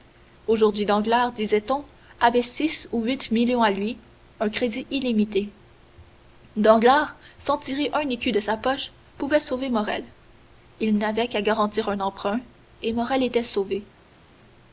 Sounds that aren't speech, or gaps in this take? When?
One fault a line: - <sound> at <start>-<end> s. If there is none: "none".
none